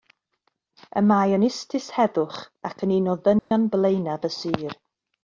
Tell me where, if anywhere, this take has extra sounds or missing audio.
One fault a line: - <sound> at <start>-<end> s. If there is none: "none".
- dropout at 3.4-3.5 s